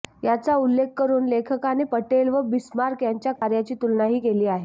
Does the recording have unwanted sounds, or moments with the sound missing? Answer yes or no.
yes